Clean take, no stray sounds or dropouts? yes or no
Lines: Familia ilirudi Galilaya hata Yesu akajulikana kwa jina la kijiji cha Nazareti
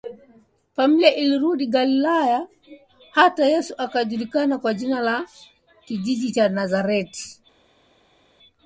yes